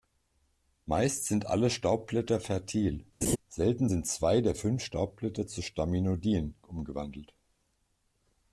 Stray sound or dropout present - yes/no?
yes